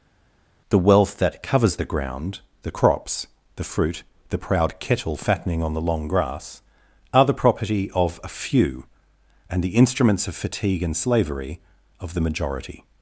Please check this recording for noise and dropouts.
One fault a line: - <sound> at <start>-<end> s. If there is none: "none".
none